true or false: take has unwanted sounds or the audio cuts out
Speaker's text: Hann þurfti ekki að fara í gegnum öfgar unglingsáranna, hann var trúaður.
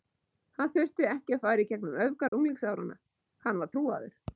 true